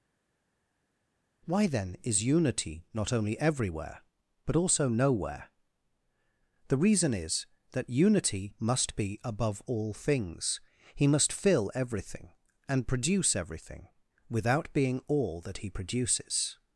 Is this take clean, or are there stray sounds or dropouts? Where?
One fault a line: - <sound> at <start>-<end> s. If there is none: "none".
none